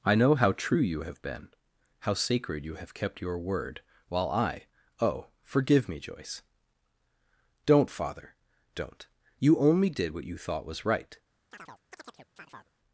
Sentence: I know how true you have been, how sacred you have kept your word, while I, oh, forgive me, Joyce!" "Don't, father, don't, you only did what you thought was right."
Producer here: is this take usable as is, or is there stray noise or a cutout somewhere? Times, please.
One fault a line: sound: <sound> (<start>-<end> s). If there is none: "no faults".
sound: chirp (11.5-12.7 s)